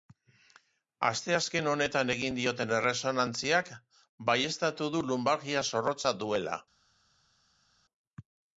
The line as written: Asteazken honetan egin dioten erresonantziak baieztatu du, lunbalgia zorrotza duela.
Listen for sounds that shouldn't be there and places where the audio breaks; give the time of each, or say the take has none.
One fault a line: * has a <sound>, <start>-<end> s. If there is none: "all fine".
all fine